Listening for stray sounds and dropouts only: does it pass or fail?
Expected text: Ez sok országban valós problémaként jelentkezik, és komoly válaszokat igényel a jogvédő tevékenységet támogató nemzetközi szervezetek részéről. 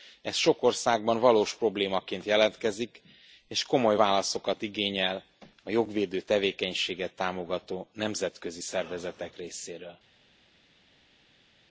pass